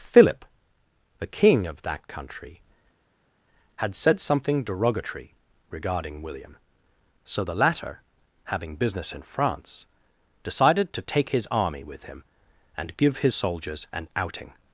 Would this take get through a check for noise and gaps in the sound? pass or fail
pass